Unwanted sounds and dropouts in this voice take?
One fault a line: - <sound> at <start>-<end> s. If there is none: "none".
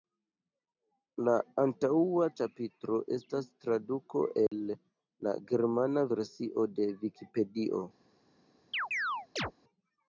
- dropout at 4.5-4.5 s
- chirp at 8.7-9.5 s